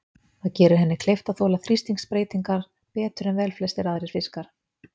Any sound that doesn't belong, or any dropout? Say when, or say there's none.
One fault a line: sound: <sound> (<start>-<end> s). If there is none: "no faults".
no faults